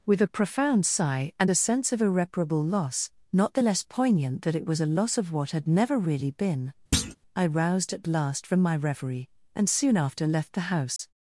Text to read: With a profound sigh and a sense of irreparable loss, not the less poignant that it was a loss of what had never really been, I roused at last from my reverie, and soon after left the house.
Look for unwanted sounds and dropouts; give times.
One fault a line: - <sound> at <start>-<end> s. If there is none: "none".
- thud at 6.9-7.2 s
- dropout at 11.0-11.0 s